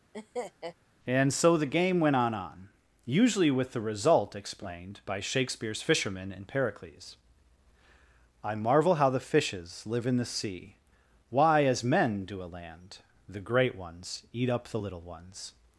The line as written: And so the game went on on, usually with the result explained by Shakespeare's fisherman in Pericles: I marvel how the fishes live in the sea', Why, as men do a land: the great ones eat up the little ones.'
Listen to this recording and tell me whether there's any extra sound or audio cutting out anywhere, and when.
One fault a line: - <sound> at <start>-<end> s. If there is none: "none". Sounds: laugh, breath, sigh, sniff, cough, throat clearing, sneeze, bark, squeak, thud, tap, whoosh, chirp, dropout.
- laugh at 0.1-0.8 s